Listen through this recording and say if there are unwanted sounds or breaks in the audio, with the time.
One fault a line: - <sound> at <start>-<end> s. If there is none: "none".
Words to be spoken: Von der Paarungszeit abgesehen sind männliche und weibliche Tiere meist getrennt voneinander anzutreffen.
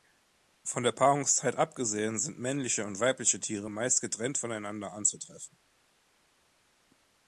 none